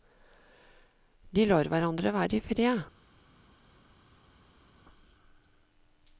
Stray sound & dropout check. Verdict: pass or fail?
pass